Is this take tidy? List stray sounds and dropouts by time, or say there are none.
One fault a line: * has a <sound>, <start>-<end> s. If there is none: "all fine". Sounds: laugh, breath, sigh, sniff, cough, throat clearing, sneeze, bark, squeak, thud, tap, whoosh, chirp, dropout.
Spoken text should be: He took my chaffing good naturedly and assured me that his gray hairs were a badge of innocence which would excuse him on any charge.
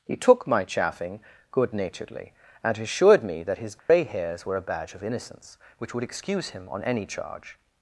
* has a dropout, 3.8-3.9 s